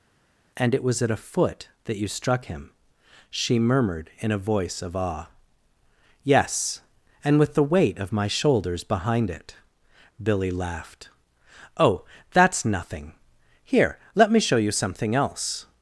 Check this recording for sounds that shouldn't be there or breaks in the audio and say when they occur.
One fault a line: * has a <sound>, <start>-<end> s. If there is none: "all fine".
all fine